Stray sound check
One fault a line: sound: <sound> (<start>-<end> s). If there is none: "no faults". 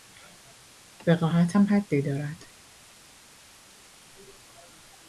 no faults